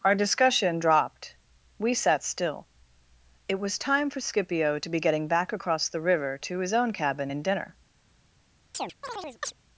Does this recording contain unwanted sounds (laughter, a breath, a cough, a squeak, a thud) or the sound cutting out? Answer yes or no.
yes